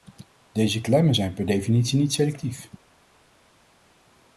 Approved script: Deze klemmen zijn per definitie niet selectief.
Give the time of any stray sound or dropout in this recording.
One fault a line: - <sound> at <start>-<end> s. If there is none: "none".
none